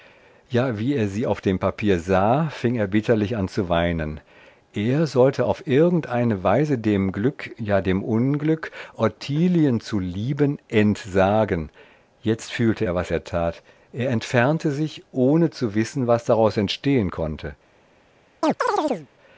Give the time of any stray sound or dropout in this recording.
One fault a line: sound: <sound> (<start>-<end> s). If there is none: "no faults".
sound: chirp (18.4-19.1 s)